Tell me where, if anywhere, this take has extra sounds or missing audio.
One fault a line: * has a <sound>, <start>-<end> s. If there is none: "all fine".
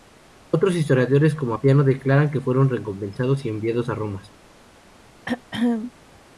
* has a throat clearing, 5.3-5.9 s